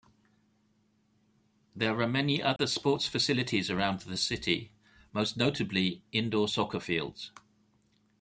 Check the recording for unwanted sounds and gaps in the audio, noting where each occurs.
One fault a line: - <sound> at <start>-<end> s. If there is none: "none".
- dropout at 2.6-2.6 s